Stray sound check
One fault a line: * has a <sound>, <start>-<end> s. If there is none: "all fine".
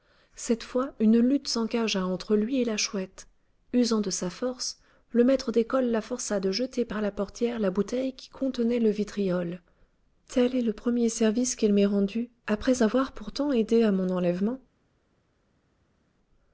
all fine